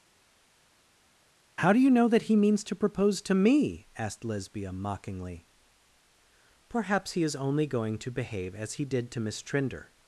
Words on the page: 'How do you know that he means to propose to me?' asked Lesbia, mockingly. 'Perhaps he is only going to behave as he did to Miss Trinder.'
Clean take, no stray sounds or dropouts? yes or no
yes